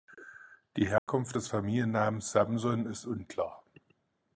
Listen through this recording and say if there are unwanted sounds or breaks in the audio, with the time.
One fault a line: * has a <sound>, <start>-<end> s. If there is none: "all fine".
* has a dropout, 1.0-1.1 s